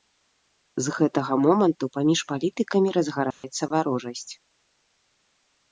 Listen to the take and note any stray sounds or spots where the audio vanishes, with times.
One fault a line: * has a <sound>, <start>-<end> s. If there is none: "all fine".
* has a dropout, 3.3-3.4 s